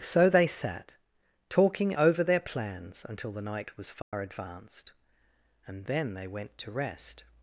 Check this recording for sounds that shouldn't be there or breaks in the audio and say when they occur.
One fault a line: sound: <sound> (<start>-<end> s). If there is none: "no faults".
sound: dropout (4.0-4.1 s)